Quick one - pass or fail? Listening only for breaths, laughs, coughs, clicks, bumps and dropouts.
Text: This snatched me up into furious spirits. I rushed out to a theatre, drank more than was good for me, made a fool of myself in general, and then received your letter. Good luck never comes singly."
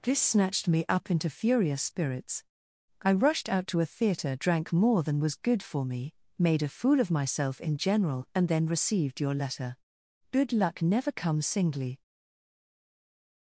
pass